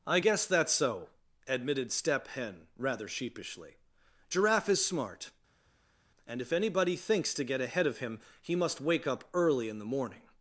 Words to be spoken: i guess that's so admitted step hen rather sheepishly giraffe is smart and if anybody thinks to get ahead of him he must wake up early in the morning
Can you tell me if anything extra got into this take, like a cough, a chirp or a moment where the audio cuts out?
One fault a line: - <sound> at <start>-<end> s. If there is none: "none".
none